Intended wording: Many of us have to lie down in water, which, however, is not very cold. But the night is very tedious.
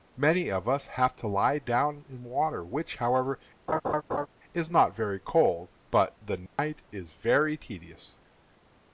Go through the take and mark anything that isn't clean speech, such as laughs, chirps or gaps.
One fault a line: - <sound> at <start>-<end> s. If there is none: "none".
- laugh at 3.7-4.3 s
- dropout at 6.5-6.6 s